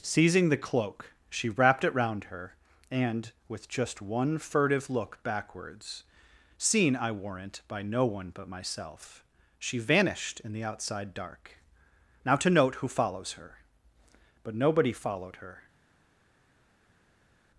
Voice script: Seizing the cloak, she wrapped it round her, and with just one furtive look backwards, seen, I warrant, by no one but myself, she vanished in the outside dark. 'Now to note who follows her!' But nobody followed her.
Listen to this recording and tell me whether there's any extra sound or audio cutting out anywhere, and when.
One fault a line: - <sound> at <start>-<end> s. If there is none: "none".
none